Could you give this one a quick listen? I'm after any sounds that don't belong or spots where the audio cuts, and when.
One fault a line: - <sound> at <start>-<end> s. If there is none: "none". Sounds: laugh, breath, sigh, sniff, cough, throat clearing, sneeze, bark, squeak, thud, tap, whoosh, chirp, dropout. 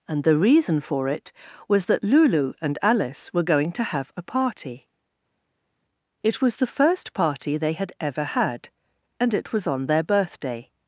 none